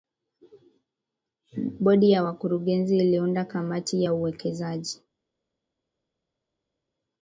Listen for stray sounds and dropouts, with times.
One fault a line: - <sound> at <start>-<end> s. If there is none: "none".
none